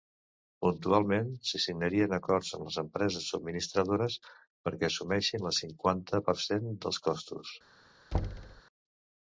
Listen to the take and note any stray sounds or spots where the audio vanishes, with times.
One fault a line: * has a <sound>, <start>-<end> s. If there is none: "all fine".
* has a thud, 8.1-8.6 s